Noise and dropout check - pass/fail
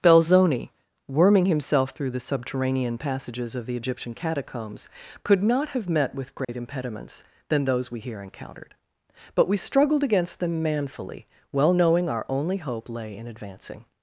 fail